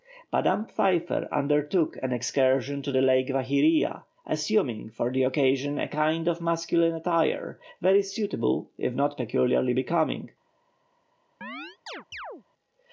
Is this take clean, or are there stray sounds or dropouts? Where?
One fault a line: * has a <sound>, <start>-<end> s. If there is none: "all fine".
* has a chirp, 11.4-12.4 s